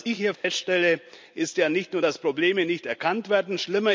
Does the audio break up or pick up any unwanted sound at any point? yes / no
yes